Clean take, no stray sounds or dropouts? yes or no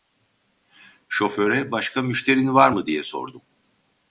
yes